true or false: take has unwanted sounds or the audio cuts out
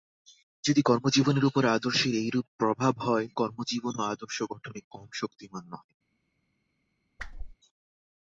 true